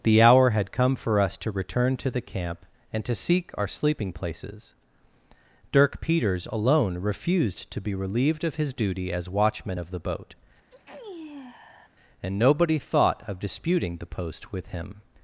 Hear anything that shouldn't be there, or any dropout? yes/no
yes